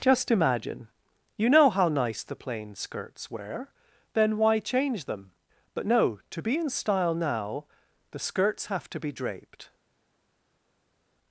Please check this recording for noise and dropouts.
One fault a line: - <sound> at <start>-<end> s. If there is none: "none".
none